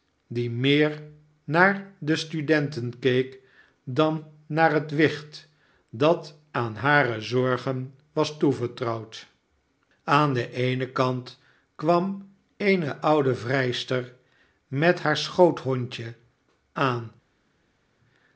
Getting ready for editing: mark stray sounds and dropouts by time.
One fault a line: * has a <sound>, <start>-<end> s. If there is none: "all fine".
all fine